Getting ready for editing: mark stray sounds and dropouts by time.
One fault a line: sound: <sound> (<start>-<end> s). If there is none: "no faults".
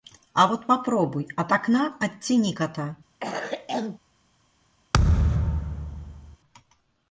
sound: cough (3.2-4.0 s)
sound: thud (4.9-6.4 s)